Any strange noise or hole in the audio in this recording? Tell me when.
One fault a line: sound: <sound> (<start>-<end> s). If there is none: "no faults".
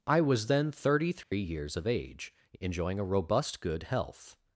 sound: dropout (1.2-1.3 s)